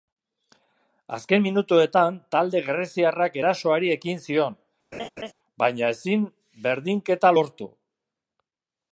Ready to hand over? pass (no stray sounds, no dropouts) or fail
fail